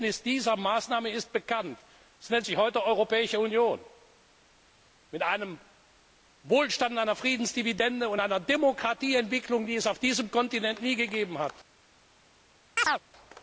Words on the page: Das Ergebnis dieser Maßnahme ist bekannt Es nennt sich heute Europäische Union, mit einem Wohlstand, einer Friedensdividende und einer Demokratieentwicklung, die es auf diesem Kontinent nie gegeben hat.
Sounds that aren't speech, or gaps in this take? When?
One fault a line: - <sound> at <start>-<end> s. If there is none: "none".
- chirp at 12.8-13.0 s